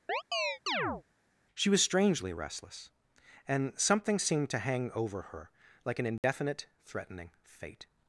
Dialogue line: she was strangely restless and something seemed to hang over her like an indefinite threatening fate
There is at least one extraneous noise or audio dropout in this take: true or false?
true